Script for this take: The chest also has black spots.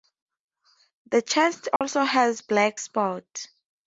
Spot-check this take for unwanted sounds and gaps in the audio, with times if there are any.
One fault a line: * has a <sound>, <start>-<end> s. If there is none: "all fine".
* has a dropout, 1.8-1.8 s